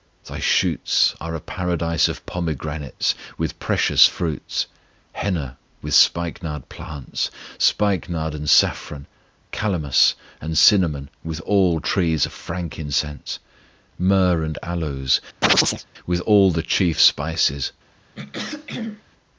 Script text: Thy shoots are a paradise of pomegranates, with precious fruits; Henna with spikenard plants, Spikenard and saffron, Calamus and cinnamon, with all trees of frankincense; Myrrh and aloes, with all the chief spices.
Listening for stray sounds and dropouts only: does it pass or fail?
fail